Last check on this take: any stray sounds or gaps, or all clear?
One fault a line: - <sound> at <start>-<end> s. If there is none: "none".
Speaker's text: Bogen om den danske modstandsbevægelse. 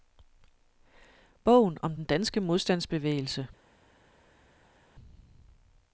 none